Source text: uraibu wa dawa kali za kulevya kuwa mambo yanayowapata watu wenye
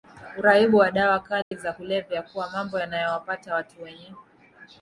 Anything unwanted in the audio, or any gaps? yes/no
yes